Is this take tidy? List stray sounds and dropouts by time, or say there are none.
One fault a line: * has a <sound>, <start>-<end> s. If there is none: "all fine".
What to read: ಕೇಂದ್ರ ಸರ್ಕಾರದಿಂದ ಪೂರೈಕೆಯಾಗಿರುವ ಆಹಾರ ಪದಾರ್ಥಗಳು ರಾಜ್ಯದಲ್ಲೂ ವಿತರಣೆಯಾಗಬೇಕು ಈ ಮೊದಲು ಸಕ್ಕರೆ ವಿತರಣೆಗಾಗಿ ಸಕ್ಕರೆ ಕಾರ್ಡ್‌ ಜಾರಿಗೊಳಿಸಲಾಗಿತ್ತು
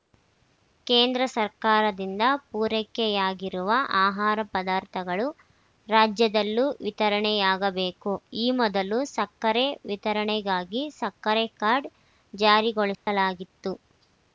* has a dropout, 12.9-13.1 s